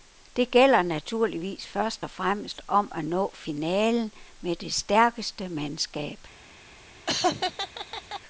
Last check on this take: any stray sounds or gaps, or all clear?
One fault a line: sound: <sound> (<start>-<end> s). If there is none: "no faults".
sound: laugh (7.1-8.2 s)